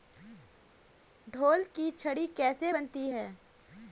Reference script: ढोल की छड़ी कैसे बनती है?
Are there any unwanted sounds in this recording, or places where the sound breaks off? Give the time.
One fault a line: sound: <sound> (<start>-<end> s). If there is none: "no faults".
no faults